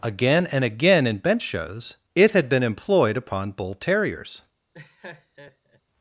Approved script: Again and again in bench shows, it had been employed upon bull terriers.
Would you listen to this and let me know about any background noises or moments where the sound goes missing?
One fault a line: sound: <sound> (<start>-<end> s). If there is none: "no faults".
sound: laugh (4.7-5.8 s)